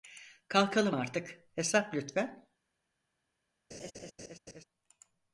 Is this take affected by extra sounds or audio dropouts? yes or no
yes